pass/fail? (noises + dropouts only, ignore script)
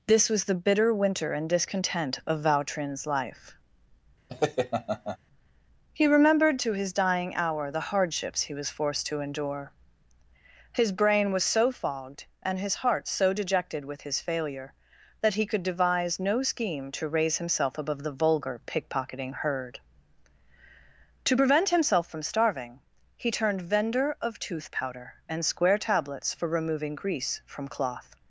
fail